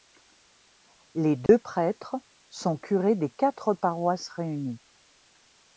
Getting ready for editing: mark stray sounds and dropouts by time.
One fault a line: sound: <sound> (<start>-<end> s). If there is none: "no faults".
sound: dropout (1.5-1.5 s)